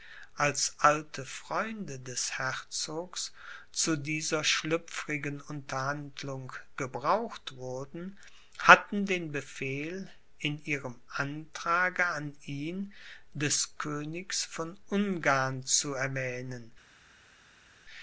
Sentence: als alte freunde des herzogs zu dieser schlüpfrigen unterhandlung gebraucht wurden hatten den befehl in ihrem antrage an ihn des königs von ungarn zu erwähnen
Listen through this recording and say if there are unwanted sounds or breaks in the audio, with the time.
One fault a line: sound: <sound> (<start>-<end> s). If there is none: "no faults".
no faults